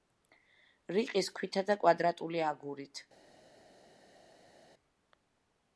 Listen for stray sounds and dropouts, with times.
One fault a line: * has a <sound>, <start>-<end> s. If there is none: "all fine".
all fine